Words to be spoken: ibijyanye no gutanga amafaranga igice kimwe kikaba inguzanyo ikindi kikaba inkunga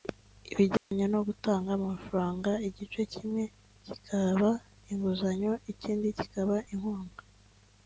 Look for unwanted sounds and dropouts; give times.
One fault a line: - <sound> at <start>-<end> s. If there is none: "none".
- dropout at 0.8-0.9 s